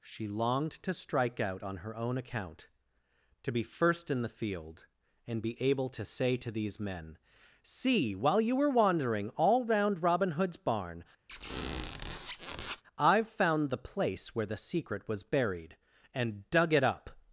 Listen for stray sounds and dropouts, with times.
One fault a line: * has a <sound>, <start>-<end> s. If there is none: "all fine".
* has a squeak, 11.3-12.8 s